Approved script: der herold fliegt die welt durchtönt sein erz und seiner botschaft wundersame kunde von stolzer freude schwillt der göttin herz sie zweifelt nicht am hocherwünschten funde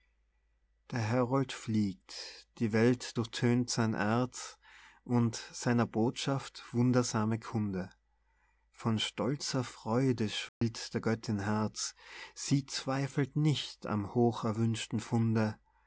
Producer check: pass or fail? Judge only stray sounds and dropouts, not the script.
fail